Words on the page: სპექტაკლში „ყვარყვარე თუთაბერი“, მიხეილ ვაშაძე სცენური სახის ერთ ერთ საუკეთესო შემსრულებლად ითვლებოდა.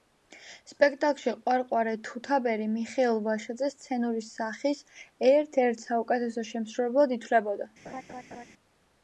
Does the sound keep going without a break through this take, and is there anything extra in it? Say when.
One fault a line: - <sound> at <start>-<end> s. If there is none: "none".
- laugh at 7.9-8.5 s